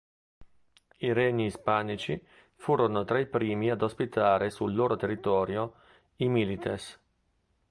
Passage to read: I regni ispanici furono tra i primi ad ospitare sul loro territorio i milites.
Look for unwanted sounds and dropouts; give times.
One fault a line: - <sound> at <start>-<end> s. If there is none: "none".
none